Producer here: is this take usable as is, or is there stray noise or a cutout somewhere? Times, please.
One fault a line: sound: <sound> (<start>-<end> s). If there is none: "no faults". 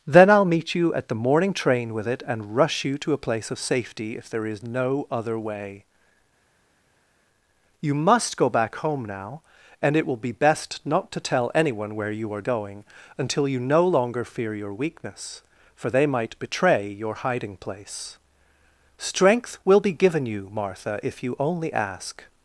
no faults